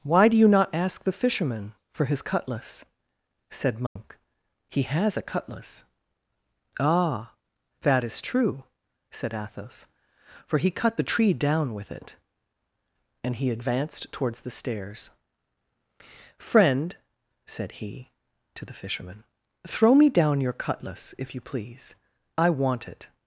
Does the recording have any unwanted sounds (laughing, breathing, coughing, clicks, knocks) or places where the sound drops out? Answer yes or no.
yes